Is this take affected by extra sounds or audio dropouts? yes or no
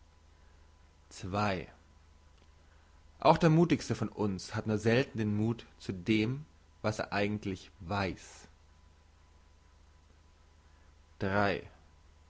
no